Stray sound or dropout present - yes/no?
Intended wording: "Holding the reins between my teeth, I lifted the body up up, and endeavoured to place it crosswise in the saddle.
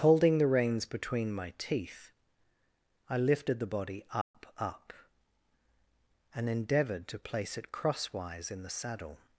yes